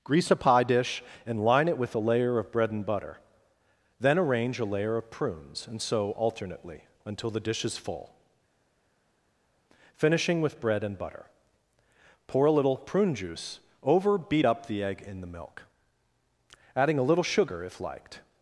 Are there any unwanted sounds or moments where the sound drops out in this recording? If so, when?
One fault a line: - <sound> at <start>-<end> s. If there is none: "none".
none